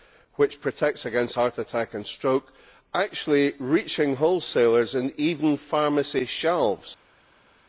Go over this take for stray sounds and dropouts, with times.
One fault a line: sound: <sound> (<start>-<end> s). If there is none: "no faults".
no faults